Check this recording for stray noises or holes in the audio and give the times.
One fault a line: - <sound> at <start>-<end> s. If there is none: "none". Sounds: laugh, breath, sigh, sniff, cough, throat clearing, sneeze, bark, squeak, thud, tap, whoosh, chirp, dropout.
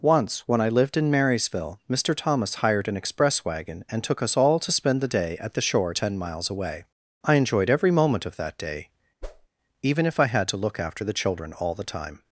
- whoosh at 9.2-9.5 s